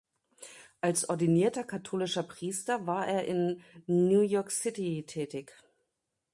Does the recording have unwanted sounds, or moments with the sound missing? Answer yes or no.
no